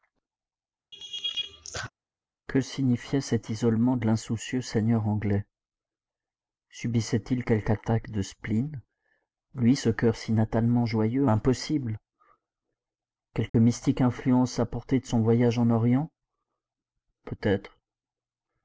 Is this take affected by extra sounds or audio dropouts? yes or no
yes